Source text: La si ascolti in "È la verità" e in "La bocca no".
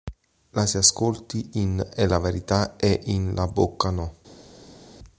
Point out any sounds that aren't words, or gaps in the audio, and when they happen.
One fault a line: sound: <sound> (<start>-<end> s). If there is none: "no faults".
no faults